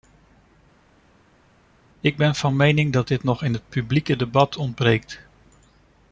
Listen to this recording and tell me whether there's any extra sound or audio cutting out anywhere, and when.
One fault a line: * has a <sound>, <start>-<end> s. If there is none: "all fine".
all fine